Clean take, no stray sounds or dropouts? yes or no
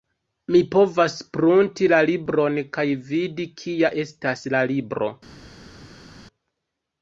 yes